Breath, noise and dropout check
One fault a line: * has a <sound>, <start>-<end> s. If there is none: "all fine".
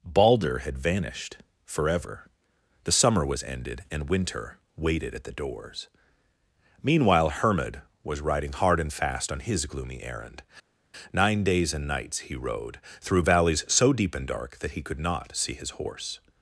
all fine